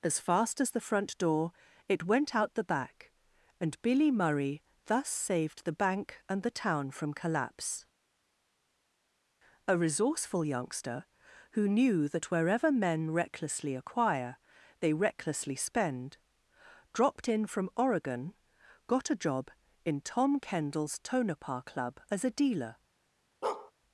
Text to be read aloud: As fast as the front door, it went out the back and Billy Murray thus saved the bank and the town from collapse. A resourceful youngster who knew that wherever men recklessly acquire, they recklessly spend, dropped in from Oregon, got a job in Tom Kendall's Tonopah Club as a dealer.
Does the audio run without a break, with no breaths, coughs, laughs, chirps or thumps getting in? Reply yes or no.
no